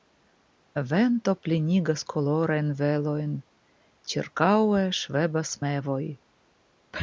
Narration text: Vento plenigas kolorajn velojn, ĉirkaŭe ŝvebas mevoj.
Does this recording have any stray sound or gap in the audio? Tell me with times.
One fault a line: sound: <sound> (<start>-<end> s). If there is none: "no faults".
no faults